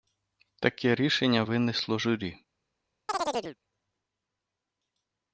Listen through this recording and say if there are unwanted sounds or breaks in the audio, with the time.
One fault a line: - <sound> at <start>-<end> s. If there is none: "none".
- chirp at 3.1-3.6 s